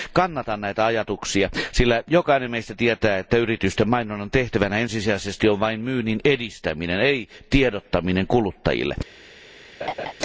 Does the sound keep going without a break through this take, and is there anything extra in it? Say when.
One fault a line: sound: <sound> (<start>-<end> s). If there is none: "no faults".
sound: laugh (9.8-10.1 s)